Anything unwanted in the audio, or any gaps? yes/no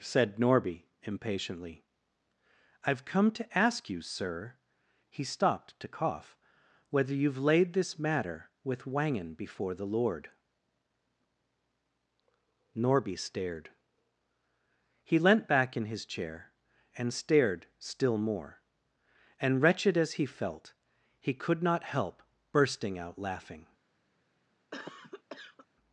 yes